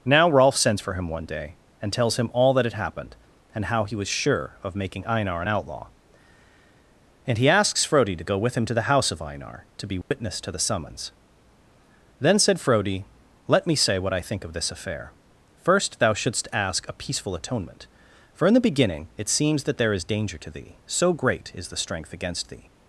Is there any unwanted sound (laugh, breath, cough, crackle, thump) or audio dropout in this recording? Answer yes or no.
yes